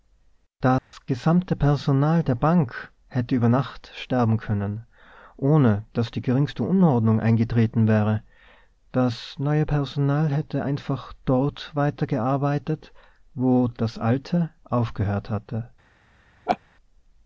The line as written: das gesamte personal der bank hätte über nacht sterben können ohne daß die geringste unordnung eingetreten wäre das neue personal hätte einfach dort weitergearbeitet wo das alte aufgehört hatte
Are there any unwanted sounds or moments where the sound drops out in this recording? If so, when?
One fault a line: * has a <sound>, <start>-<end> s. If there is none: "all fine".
* has a dropout, 0.8-0.9 s
* has a laugh, 16.5-16.6 s